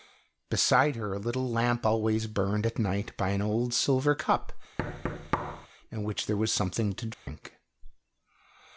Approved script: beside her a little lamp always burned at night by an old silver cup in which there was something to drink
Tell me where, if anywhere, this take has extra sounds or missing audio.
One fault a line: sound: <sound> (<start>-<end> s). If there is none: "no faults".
sound: thud (4.8-5.7 s)
sound: dropout (7.1-7.3 s)